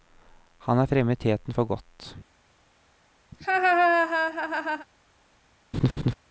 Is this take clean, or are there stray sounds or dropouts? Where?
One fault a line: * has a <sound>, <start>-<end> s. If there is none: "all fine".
* has a laugh, 3.3-4.9 s
* has a laugh, 5.7-6.1 s